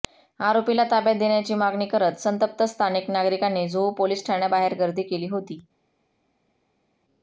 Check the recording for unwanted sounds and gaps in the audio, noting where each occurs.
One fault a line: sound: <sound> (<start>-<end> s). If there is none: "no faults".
no faults